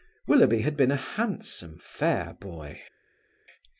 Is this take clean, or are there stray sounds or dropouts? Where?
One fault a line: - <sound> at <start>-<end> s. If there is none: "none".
none